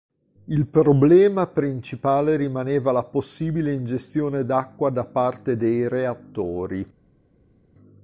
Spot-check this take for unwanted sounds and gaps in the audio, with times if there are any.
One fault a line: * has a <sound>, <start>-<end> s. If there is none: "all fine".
all fine